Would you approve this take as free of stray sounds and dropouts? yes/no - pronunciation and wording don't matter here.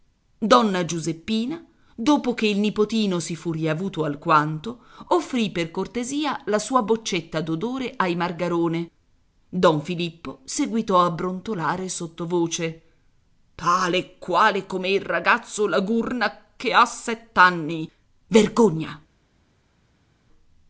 yes